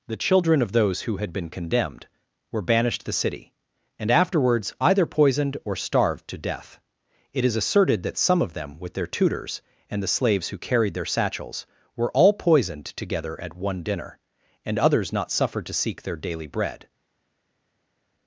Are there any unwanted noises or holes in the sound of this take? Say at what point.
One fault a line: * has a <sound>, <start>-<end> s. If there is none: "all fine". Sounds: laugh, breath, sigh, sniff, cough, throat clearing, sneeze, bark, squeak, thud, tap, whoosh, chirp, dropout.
all fine